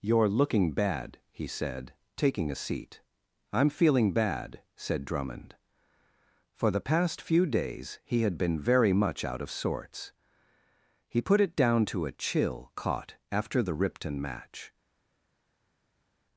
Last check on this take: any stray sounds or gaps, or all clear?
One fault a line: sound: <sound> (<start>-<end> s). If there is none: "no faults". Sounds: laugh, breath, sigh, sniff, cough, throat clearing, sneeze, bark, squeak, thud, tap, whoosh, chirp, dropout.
no faults